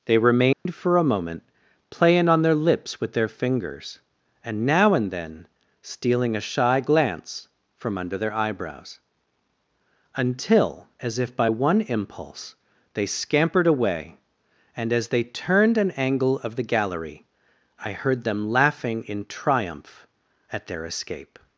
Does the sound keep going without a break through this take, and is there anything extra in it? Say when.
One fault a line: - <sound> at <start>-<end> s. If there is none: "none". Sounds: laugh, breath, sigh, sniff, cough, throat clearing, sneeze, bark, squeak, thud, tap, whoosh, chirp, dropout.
- dropout at 0.5-0.7 s